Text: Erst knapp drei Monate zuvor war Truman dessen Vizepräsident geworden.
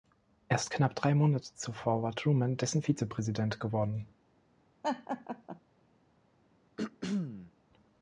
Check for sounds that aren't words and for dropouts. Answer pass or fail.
fail